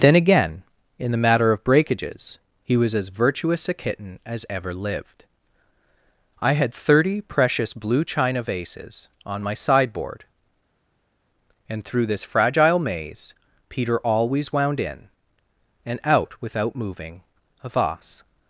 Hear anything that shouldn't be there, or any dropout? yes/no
no